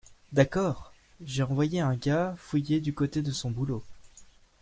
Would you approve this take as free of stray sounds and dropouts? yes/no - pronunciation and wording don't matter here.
yes